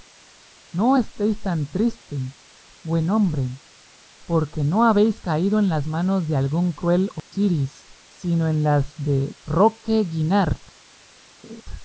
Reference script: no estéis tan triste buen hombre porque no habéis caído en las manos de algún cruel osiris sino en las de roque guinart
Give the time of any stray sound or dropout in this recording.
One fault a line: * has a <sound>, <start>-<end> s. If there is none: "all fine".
* has a dropout, 7.2-7.3 s
* has a laugh, 11.4-11.6 s